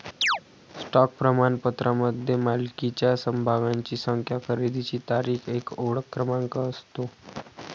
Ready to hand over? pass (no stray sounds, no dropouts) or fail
fail